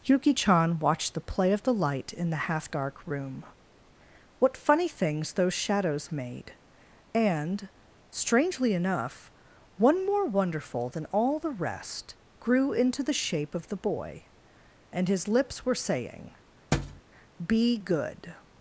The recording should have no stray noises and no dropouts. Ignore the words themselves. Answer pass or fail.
fail